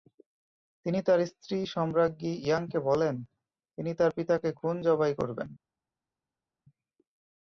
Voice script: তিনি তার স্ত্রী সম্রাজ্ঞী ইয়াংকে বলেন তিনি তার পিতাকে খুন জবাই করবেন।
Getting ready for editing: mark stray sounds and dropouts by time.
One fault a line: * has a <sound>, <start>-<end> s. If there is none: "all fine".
all fine